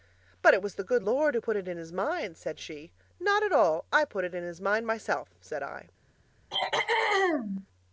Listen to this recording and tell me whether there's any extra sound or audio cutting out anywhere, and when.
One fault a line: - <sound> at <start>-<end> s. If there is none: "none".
- throat clearing at 6.5-7.7 s